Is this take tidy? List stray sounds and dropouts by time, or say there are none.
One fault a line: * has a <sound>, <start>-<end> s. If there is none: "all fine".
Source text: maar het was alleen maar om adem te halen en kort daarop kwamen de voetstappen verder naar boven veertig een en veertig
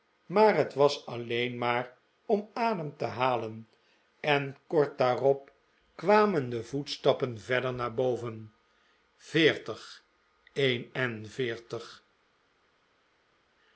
all fine